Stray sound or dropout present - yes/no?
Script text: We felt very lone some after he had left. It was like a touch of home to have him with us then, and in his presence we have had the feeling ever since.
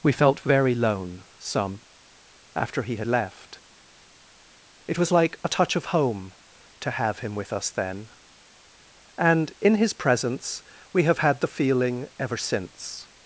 no